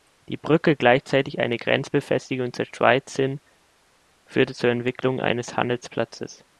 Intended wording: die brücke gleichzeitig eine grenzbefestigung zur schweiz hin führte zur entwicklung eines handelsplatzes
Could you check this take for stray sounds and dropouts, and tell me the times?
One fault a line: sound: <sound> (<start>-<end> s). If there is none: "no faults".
no faults